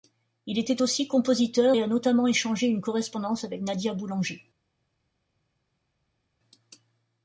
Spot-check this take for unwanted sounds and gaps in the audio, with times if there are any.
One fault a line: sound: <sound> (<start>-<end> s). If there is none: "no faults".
no faults